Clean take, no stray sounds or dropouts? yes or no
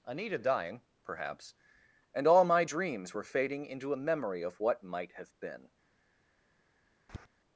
no